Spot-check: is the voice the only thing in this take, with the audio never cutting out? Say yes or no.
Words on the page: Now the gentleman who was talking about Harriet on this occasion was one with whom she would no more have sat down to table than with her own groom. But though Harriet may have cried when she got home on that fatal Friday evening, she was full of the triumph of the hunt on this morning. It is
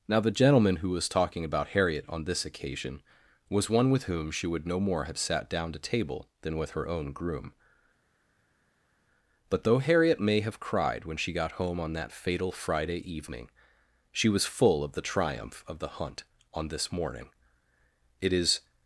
yes